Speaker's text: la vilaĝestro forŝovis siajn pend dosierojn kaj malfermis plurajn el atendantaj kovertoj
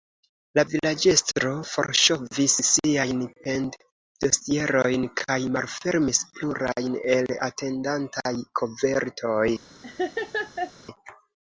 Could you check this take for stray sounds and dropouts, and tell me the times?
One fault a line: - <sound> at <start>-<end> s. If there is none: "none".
- laugh at 9.8-10.7 s